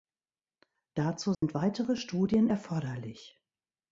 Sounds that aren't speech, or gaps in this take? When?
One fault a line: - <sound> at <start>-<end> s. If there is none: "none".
- dropout at 1.3-1.4 s